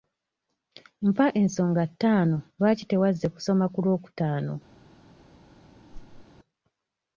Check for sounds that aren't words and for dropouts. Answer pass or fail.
fail